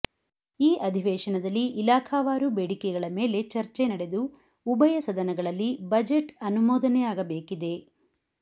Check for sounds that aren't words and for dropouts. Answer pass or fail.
pass